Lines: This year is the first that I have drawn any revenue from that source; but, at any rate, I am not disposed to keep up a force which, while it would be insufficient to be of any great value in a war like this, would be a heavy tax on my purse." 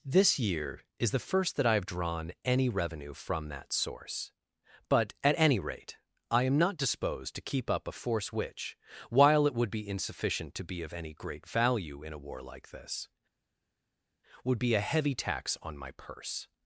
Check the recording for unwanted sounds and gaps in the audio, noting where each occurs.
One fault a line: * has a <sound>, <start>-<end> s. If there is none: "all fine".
all fine